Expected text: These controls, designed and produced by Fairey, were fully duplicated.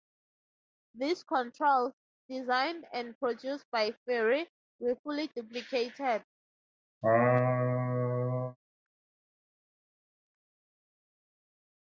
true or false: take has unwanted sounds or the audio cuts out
true